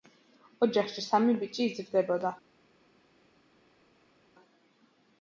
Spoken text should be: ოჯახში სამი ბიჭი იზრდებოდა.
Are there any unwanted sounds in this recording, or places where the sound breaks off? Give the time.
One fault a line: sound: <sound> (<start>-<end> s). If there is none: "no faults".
no faults